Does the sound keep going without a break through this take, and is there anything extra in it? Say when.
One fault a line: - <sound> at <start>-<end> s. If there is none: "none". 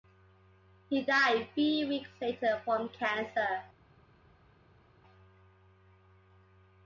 none